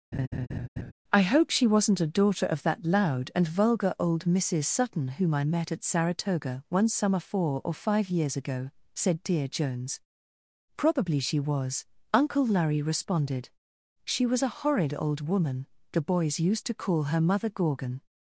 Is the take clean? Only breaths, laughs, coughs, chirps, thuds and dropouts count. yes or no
no